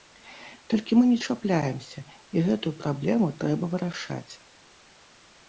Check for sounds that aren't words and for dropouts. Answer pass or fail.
pass